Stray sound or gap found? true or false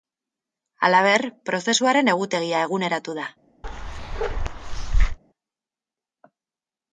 true